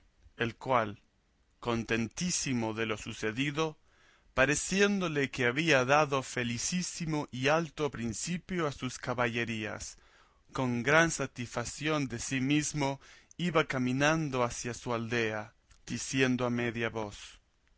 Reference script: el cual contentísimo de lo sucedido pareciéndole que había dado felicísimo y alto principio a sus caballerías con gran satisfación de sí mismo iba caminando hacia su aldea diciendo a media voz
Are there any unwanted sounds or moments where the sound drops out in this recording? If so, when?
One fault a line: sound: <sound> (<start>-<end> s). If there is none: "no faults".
no faults